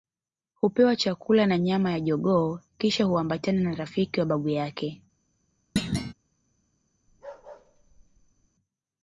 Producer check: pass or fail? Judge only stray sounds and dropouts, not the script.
fail